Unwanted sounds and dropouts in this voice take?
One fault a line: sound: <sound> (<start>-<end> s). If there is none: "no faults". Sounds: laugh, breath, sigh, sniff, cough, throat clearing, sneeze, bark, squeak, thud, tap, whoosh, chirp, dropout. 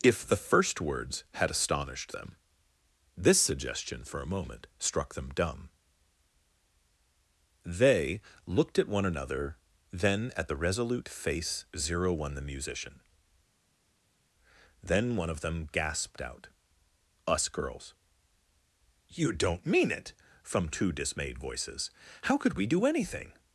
no faults